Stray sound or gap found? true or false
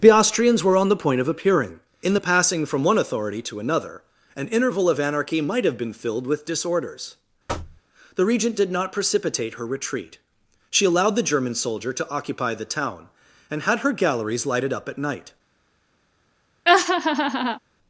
true